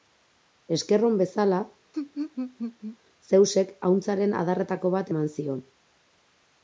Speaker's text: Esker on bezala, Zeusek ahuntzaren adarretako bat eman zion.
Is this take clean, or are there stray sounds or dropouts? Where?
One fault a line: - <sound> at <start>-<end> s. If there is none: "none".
- laugh at 1.9-3.0 s